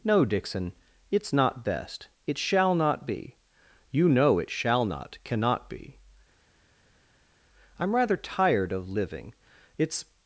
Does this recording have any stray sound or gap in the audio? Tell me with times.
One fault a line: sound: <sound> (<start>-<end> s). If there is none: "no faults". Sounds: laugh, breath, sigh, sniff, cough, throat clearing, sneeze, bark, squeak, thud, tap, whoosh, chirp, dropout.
no faults